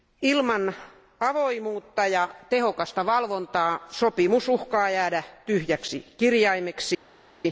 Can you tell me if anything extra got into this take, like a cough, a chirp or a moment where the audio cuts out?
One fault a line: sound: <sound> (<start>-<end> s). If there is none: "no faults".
no faults